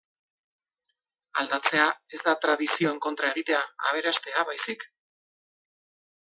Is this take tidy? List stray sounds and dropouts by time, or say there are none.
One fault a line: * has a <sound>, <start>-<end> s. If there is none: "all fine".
all fine